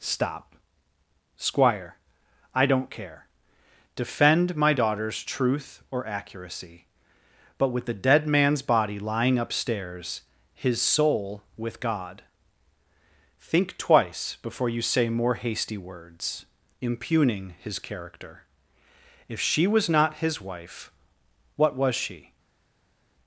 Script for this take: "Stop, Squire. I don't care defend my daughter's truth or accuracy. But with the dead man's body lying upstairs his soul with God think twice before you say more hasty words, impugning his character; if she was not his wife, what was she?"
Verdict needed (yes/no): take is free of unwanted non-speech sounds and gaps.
yes